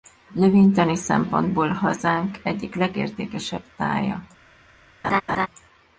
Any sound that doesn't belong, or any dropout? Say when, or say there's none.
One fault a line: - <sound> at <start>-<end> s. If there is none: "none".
- laugh at 5.0-5.5 s